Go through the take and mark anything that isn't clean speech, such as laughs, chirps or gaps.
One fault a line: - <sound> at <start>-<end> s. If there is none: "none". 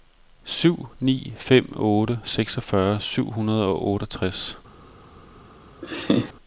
- laugh at 5.8-6.3 s